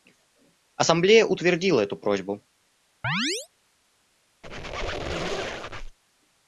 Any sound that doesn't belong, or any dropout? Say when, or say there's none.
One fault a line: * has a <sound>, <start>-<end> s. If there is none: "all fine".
* has a chirp, 3.0-3.5 s
* has a squeak, 4.4-6.0 s